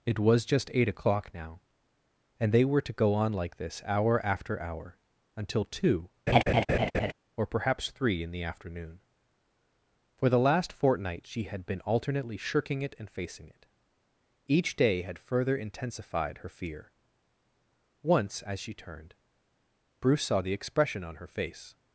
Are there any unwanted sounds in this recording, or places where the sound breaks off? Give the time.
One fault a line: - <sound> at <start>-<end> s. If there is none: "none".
- laugh at 6.3-7.1 s